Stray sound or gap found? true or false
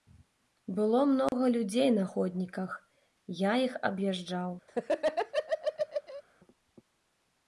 true